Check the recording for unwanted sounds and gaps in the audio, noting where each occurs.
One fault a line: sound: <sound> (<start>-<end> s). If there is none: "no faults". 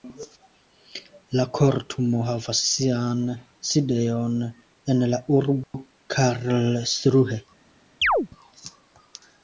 sound: dropout (5.6-5.7 s)
sound: chirp (8.0-8.3 s)